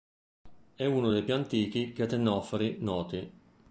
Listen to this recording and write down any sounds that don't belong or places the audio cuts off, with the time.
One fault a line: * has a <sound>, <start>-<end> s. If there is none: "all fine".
all fine